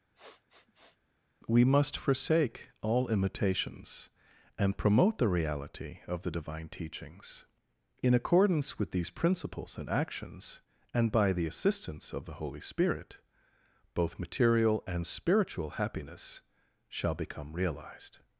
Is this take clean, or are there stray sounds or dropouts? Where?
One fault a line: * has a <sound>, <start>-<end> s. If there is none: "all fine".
* has a sniff, 0.1-1.0 s